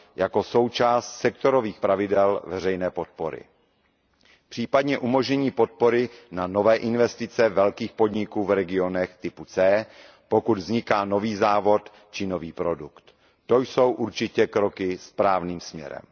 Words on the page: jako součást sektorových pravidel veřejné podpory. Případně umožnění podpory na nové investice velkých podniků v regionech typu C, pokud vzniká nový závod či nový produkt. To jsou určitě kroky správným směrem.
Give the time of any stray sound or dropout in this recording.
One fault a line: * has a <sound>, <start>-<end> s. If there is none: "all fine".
all fine